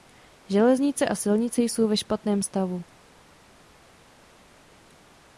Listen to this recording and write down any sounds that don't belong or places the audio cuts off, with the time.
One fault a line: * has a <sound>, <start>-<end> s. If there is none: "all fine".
all fine